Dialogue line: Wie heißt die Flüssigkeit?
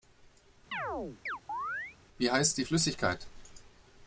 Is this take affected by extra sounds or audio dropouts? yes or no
yes